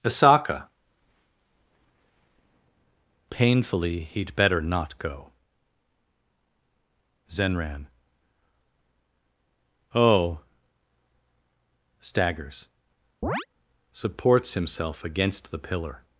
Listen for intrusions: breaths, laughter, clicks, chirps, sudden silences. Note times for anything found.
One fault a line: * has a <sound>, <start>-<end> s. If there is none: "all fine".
* has a chirp, 13.2-13.5 s